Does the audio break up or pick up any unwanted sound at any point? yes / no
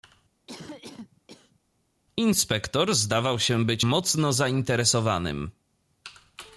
yes